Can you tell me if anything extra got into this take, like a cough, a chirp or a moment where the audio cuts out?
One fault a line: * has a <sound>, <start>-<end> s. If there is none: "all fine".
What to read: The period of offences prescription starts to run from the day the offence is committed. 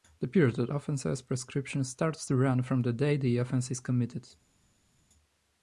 all fine